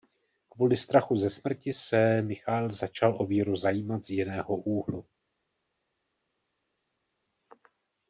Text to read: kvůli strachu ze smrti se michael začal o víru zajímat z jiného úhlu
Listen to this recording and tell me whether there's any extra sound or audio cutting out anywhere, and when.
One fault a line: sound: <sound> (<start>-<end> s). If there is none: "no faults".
no faults